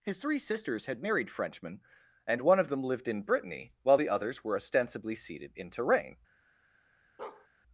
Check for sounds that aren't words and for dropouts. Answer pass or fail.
fail